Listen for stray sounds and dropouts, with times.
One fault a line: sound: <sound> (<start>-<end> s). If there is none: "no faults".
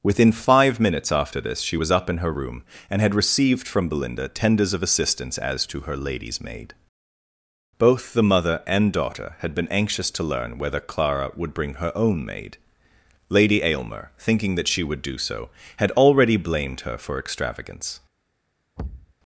sound: thud (18.8-19.1 s)